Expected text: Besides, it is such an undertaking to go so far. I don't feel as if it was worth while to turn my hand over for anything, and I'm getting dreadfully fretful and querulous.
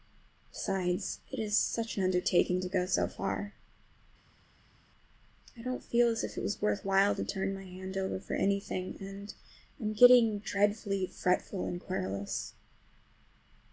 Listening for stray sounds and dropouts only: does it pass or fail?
pass